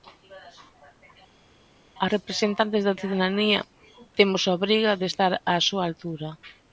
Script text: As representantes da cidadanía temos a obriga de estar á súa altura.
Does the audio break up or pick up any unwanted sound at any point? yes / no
no